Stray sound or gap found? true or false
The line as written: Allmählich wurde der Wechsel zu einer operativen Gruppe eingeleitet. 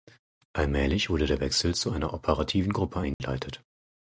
true